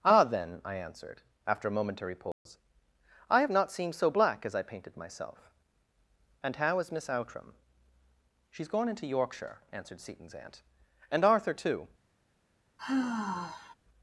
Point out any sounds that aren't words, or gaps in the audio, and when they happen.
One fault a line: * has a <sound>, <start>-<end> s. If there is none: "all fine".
* has a dropout, 2.3-2.5 s
* has a sigh, 12.8-13.7 s